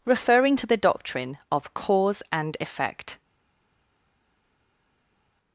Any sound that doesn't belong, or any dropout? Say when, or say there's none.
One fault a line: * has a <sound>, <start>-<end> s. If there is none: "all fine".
all fine